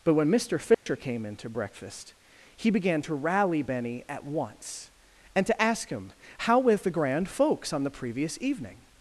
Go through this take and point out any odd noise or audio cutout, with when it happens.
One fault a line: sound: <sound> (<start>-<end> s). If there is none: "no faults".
sound: dropout (0.7-0.9 s)